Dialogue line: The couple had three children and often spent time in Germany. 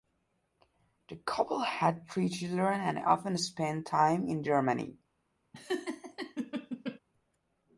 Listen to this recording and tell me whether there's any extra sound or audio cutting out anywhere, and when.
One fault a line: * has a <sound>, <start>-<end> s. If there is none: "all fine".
* has a laugh, 5.5-7.0 s